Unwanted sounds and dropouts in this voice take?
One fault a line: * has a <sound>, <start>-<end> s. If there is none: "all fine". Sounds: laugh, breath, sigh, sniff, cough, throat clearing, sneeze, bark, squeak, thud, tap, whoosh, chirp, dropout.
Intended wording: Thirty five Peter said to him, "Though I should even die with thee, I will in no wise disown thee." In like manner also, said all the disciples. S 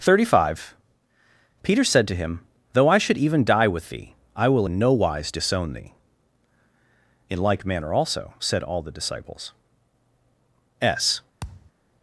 * has a thud, 11.4-11.7 s